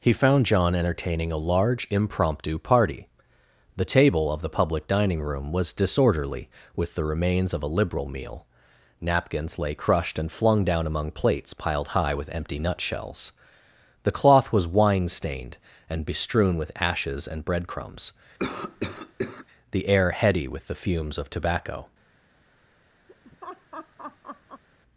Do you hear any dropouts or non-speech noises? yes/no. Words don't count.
yes